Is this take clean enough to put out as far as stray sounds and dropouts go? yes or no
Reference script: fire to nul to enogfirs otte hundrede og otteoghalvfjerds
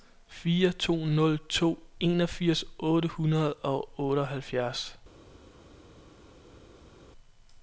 yes